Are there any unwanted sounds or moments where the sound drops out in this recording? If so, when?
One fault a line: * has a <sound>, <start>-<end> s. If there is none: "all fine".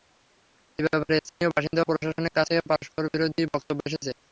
* has a dropout, 1.3-1.4 s